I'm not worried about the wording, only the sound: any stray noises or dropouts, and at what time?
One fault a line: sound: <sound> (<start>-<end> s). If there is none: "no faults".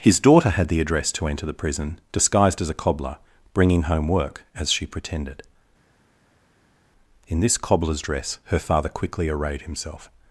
no faults